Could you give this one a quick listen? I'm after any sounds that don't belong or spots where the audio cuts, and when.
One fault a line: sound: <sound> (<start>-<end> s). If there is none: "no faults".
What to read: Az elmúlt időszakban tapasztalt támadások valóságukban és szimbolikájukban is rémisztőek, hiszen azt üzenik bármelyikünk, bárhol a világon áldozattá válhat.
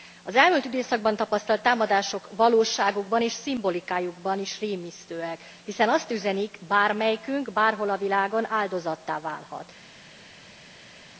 no faults